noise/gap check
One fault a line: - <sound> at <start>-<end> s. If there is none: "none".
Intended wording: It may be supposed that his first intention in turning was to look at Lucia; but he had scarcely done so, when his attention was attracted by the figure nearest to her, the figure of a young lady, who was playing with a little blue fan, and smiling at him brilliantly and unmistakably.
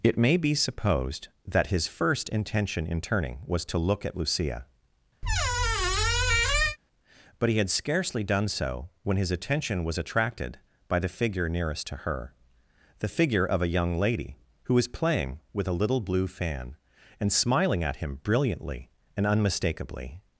- squeak at 5.2-6.8 s